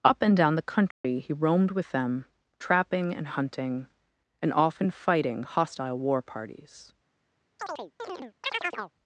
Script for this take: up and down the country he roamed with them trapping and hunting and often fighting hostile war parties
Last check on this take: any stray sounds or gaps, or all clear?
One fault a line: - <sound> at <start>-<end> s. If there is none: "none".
- dropout at 0.9-1.0 s
- chirp at 7.6-8.9 s